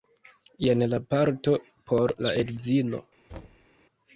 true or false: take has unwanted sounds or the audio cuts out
true